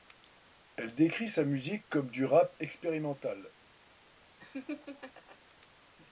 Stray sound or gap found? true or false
true